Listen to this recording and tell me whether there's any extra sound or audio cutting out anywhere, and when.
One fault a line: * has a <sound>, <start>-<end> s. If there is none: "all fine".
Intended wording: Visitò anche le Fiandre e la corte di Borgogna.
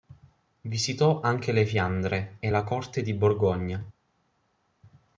all fine